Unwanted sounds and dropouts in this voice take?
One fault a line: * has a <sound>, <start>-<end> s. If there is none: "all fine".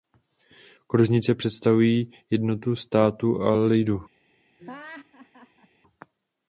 * has a laugh, 4.6-5.7 s